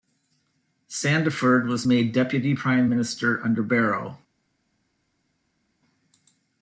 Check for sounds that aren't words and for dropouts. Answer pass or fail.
pass